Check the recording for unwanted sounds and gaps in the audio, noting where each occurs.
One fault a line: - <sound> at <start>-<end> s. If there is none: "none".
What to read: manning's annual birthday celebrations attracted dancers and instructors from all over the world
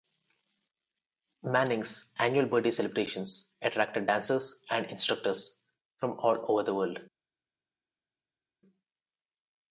none